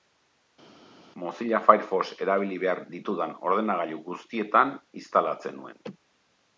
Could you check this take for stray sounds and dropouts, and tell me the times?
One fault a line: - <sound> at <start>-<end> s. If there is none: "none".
none